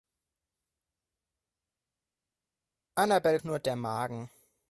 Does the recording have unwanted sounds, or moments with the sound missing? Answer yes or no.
no